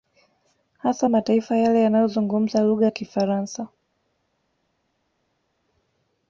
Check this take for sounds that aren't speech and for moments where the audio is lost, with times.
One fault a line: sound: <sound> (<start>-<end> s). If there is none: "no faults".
no faults